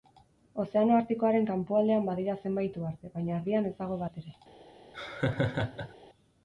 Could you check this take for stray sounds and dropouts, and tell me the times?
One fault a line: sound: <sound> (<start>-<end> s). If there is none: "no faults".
sound: laugh (4.9-5.9 s)